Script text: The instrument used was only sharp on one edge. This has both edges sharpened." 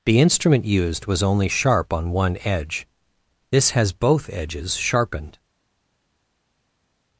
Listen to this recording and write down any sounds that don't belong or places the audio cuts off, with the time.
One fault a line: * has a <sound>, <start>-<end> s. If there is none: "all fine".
all fine